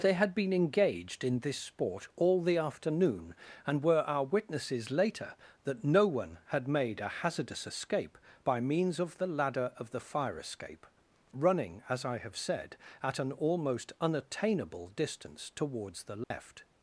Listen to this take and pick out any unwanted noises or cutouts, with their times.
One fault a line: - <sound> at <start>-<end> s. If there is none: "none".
- dropout at 16.2-16.3 s